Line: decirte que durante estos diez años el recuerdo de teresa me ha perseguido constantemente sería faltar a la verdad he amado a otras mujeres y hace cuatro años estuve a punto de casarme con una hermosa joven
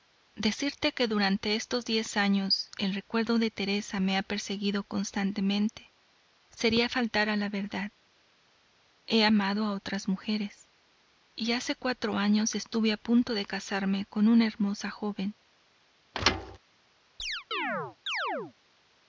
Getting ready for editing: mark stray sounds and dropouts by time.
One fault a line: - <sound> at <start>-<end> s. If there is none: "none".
- thud at 16.1-16.6 s
- chirp at 17.2-18.5 s